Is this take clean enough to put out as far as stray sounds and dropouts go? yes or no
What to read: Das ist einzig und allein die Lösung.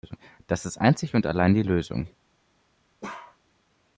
no